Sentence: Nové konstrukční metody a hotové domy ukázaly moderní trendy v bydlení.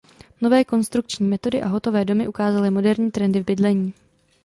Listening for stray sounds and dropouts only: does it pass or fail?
pass